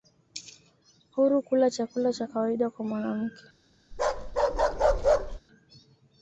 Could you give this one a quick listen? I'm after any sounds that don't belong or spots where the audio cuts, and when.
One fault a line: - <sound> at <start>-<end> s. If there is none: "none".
- bark at 3.9-5.4 s